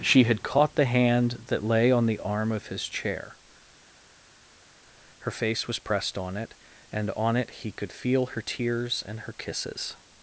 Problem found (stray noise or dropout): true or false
false